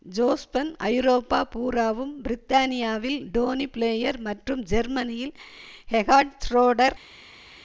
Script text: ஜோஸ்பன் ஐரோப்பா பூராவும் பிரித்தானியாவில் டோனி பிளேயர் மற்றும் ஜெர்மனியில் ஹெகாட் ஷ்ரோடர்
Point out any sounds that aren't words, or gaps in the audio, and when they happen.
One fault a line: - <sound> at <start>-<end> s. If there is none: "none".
none